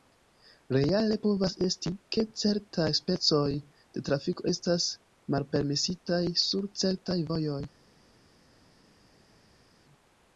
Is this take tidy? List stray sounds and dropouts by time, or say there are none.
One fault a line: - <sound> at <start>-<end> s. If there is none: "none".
none